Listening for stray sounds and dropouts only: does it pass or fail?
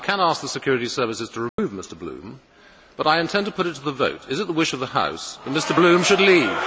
fail